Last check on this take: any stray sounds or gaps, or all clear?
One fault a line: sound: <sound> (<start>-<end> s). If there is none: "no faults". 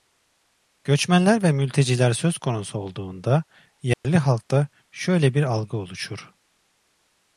sound: dropout (3.9-4.0 s)